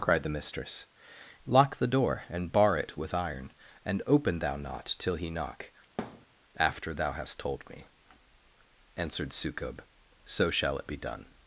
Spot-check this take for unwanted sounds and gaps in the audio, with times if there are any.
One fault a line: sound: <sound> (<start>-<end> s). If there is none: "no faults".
sound: thud (6.0-6.3 s)